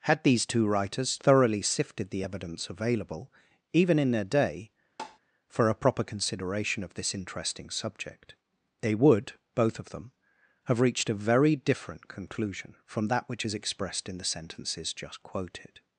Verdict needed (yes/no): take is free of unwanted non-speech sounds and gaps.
no